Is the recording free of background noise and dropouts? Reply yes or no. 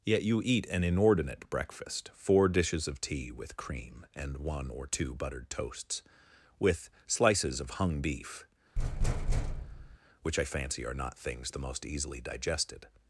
no